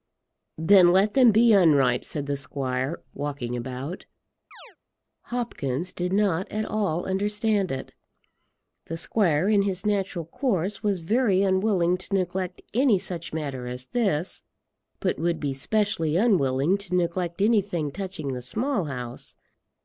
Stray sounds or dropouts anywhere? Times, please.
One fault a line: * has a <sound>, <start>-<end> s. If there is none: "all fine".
* has a chirp, 4.5-4.8 s